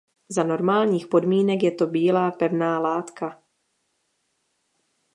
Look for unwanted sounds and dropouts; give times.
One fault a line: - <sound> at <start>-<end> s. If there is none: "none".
none